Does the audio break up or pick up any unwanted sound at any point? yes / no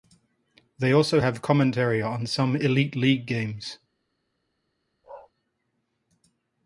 yes